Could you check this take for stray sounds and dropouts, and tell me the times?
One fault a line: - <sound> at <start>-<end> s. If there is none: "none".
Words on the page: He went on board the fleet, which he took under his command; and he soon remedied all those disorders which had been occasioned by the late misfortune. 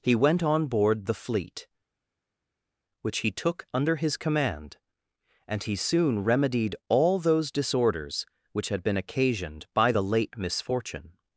none